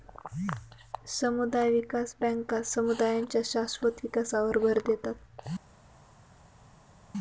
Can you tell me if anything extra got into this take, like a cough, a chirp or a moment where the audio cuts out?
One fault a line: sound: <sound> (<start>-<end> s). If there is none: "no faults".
no faults